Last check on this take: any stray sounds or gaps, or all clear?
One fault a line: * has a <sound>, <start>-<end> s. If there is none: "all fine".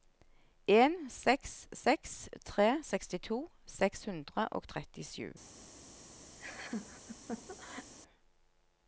* has a laugh, 6.4-7.9 s